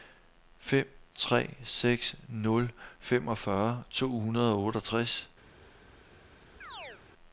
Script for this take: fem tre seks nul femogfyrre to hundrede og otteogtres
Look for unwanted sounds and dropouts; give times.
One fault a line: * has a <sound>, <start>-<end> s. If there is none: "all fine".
* has a chirp, 6.6-7.0 s